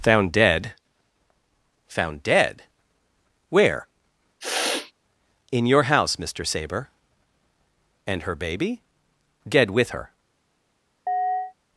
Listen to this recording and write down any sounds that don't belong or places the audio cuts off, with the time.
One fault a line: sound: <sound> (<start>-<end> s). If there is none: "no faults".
sound: sniff (4.4-4.9 s)
sound: chirp (11.1-11.5 s)